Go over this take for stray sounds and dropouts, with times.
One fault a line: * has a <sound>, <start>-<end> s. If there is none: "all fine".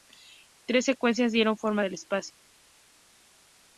all fine